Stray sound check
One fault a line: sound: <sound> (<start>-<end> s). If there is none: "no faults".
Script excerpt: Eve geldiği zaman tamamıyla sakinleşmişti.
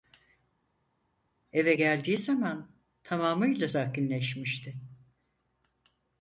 no faults